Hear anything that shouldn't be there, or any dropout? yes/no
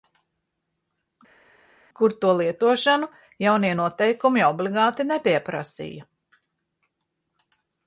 no